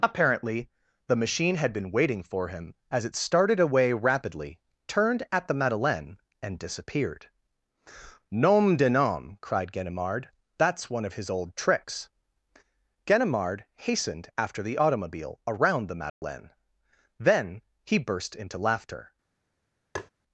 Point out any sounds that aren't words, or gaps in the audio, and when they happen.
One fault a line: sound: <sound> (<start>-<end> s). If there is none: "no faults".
sound: dropout (16.1-16.2 s)
sound: tap (20.0-20.1 s)